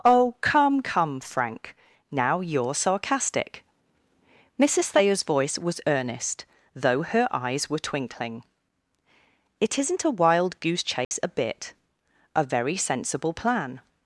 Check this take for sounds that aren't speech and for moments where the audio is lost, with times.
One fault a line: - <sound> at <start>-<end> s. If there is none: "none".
- dropout at 11.0-11.1 s